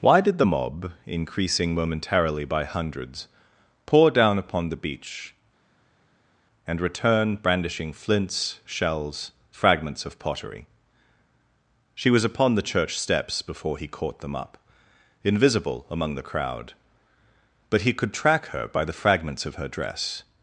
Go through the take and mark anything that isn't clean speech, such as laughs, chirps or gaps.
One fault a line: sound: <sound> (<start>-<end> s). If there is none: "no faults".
no faults